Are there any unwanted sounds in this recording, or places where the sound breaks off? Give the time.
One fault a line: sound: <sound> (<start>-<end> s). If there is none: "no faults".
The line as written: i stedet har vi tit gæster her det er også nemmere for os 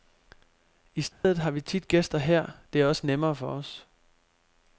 sound: dropout (1.1-1.2 s)